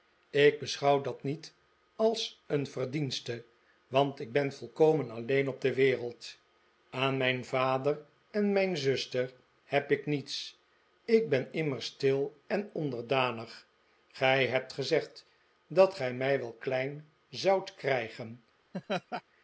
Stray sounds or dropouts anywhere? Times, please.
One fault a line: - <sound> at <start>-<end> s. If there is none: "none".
- laugh at 18.7-19.2 s